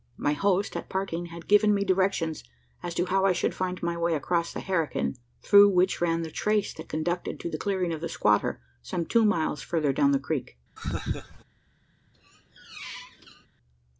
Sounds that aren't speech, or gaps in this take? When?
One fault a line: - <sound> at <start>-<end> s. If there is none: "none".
- laugh at 10.8-11.4 s
- squeak at 12.1-13.5 s